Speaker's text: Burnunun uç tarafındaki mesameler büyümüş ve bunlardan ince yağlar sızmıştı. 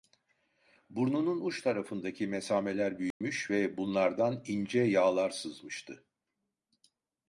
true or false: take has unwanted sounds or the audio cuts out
true